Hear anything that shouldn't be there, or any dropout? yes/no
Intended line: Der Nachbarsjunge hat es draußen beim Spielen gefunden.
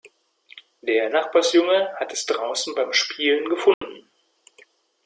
yes